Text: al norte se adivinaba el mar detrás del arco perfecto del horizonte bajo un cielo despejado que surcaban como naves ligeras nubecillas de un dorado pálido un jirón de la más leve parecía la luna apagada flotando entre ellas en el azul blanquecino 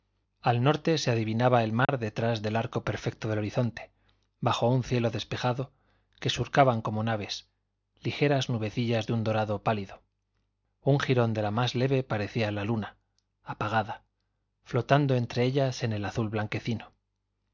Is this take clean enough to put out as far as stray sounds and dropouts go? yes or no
no